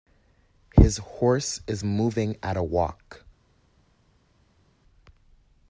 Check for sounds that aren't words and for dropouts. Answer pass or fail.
pass